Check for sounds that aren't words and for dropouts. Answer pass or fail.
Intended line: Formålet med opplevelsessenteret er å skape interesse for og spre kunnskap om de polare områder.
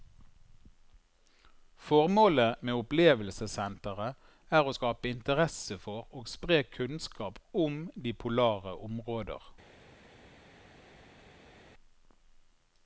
pass